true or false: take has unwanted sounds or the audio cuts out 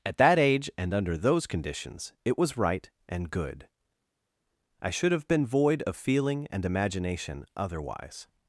false